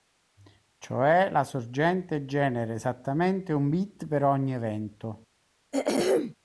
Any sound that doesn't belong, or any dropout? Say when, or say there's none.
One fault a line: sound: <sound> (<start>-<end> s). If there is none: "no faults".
sound: throat clearing (5.7-6.4 s)